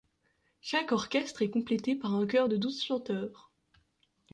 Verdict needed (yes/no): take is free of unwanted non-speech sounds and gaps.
yes